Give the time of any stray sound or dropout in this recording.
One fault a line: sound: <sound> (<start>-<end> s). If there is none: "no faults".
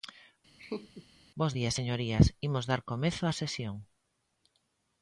sound: laugh (0.6-1.1 s)